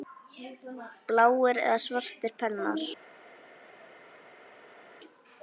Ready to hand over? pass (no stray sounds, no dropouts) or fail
pass